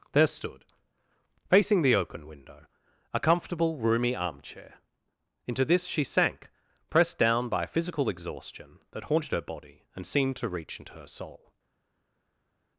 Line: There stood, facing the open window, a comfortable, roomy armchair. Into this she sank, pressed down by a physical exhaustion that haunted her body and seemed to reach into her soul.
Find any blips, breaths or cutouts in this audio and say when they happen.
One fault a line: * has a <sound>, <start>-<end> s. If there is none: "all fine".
all fine